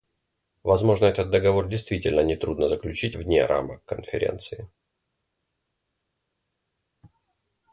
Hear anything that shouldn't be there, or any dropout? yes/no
no